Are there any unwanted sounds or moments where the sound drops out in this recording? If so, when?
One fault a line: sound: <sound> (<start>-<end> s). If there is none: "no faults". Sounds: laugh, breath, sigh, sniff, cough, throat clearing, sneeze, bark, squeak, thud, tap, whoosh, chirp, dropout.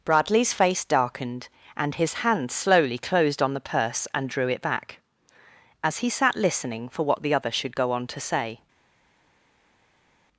no faults